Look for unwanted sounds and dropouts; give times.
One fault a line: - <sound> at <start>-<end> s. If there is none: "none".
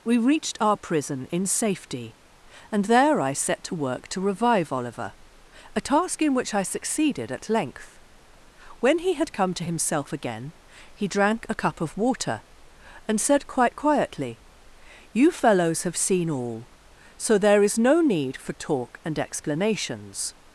none